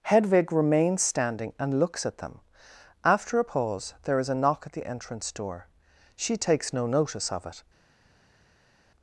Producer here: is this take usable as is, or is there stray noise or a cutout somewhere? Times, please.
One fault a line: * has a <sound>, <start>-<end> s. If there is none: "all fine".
all fine